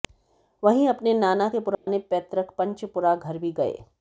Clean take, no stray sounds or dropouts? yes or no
no